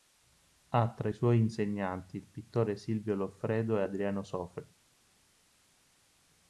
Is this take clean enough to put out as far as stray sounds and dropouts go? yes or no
yes